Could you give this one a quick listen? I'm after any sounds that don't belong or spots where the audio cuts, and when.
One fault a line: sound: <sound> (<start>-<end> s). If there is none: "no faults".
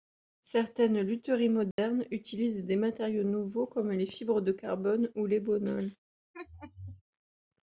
sound: dropout (1.7-1.8 s)
sound: laugh (6.3-7.0 s)